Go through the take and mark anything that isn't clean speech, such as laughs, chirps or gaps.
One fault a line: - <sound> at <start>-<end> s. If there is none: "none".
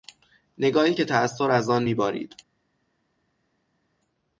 none